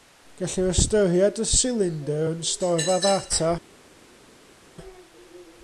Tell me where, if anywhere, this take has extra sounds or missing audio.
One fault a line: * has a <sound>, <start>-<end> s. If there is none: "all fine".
all fine